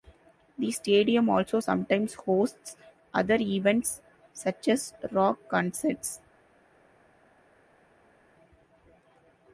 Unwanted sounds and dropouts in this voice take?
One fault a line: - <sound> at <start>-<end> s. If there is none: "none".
none